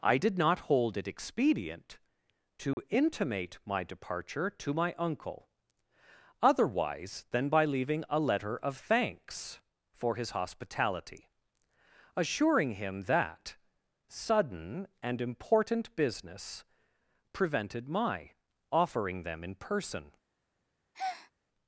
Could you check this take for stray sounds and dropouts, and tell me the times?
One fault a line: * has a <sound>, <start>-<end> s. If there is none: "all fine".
* has a dropout, 2.7-2.8 s
* has a breath, 20.9-21.3 s